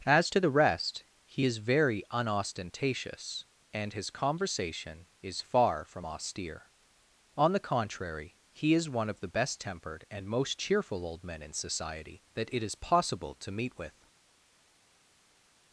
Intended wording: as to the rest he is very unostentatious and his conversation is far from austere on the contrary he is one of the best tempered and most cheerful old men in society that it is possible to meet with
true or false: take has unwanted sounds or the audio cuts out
false